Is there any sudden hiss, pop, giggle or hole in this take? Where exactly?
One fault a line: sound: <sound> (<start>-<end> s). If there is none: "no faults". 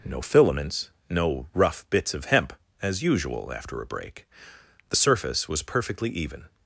no faults